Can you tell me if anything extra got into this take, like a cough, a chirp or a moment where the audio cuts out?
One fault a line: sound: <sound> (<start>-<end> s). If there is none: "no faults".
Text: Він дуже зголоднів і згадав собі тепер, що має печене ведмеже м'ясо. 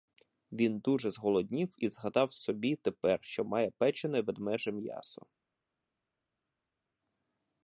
no faults